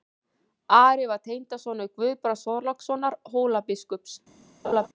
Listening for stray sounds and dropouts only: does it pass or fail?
fail